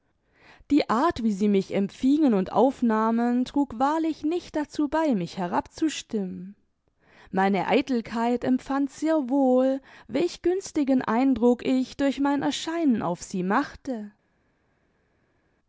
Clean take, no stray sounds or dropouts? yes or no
yes